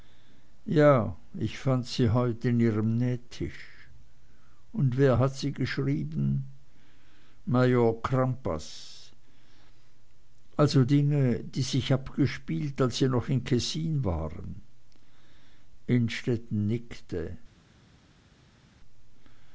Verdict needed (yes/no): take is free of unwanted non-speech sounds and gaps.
yes